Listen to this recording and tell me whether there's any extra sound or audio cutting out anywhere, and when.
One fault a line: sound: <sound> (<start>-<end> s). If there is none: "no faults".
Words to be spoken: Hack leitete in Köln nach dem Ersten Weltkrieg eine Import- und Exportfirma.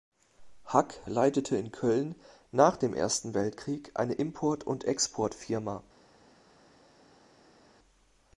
no faults